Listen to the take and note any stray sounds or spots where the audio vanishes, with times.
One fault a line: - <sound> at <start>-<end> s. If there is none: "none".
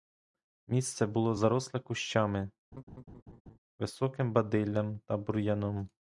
- laugh at 2.7-3.6 s